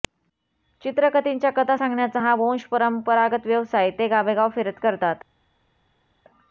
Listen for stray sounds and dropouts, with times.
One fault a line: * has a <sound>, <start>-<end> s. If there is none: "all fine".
all fine